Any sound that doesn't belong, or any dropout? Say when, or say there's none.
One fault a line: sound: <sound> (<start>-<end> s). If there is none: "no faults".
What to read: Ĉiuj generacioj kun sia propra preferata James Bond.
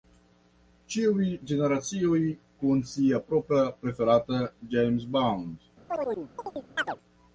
sound: chirp (5.9-7.0 s)